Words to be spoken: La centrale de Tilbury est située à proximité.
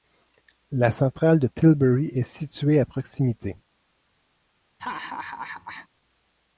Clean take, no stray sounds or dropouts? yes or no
no